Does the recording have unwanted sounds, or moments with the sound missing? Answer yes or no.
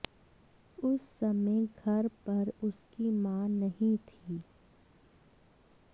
no